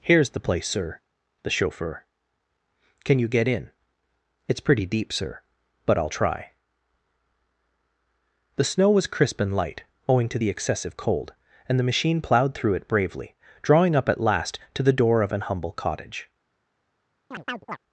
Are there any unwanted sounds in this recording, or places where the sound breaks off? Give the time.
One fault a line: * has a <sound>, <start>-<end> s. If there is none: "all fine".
* has a chirp, 17.3-17.8 s